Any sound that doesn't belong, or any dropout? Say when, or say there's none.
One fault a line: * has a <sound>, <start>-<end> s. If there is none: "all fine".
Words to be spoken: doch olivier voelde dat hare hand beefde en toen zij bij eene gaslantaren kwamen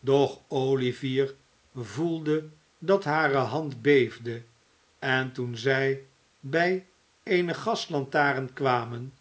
all fine